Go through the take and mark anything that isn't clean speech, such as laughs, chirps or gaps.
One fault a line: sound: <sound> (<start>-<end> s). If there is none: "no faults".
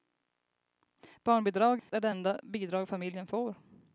sound: dropout (1.8-1.9 s)